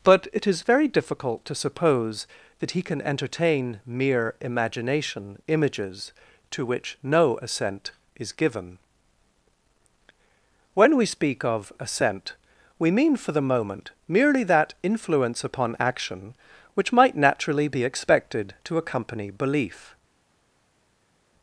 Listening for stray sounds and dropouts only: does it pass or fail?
pass